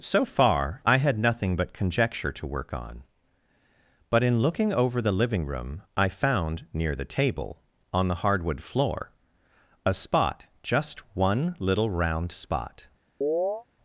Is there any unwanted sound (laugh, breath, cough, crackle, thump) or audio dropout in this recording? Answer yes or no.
yes